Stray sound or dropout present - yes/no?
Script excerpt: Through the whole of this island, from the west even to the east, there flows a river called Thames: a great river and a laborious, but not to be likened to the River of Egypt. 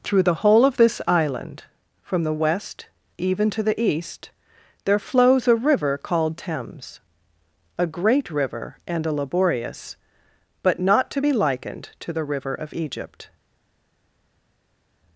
no